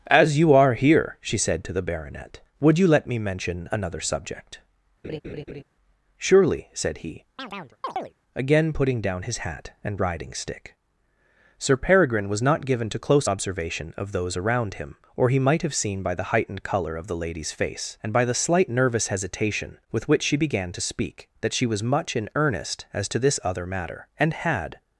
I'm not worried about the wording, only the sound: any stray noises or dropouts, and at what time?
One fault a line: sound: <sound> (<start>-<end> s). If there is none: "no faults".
sound: laugh (5.0-5.6 s)
sound: chirp (7.4-8.2 s)